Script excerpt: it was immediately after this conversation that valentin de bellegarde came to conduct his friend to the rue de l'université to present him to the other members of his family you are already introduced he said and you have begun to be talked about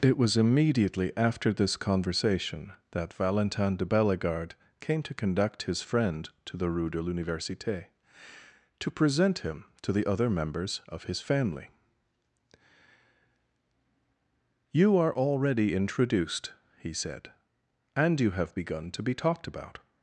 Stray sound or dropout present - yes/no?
no